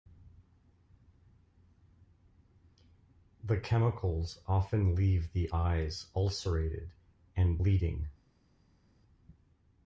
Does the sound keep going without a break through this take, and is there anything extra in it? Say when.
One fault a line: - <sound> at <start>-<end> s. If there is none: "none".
none